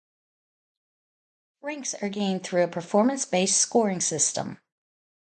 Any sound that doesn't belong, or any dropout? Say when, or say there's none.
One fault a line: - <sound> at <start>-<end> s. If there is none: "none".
none